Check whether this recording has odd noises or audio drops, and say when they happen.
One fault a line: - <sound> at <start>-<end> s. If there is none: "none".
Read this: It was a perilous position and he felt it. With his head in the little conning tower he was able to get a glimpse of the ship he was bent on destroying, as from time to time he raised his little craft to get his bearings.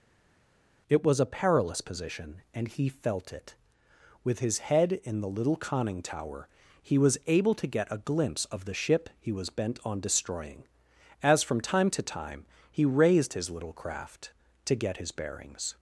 none